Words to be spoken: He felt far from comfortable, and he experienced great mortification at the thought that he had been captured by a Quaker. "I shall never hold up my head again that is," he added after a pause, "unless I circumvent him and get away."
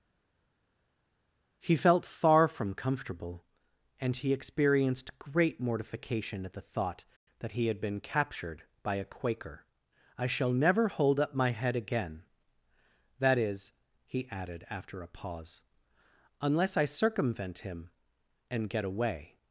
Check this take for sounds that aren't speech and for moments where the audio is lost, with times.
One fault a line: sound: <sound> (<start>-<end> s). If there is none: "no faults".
no faults